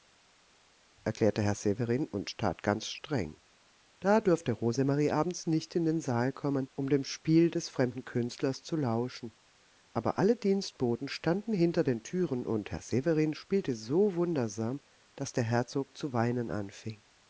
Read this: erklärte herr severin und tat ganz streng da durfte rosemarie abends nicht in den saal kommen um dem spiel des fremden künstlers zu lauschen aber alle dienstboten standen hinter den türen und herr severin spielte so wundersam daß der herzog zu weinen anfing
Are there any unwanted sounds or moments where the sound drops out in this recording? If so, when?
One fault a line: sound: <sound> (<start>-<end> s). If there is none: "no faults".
no faults